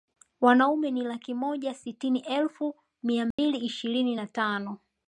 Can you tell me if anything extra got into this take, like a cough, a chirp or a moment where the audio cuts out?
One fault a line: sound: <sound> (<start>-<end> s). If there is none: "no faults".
sound: dropout (3.3-3.4 s)